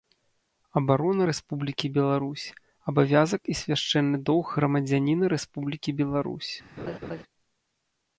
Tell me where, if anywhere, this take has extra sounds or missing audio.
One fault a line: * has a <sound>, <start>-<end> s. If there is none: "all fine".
* has a laugh, 6.8-7.2 s